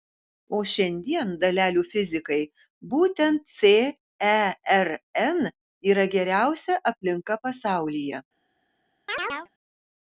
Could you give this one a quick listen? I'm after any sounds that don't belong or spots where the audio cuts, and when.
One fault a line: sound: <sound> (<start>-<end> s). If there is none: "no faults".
sound: chirp (9.1-9.5 s)